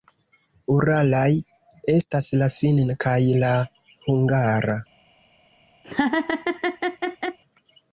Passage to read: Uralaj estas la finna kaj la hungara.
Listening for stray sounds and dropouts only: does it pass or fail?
fail